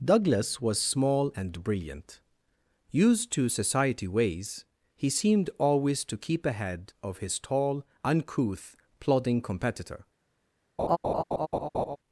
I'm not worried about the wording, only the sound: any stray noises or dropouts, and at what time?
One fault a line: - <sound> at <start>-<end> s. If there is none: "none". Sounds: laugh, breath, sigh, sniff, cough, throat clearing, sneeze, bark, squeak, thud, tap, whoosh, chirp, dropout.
- laugh at 10.8-12.0 s